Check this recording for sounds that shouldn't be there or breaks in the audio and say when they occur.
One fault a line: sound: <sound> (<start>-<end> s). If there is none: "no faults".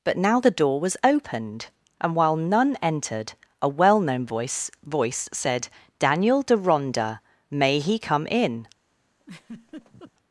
sound: laugh (9.2-10.1 s)